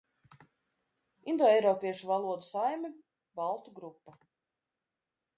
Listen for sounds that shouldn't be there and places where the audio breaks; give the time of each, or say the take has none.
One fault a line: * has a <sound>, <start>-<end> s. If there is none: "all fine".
all fine